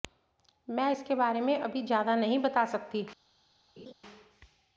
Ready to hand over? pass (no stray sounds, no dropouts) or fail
fail